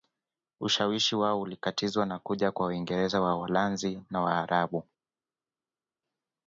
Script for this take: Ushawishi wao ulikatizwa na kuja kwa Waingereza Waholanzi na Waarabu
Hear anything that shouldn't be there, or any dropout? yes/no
no